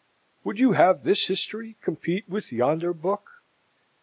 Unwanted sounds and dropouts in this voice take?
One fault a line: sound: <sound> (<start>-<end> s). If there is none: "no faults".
no faults